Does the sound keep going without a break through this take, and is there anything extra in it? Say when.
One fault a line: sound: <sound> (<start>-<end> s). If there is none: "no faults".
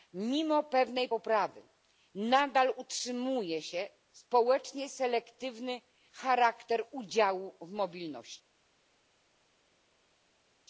no faults